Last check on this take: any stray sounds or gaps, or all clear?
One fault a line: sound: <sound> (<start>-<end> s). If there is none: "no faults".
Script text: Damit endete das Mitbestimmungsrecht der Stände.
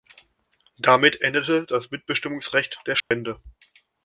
sound: dropout (3.0-3.1 s)